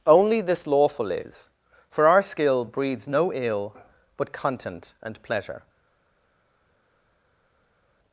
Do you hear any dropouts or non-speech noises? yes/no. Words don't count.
no